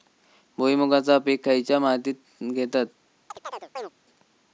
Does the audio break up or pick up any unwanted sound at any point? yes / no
yes